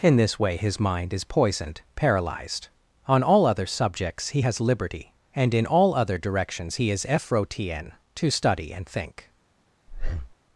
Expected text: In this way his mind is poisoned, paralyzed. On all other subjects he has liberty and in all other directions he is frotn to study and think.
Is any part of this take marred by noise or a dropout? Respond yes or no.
yes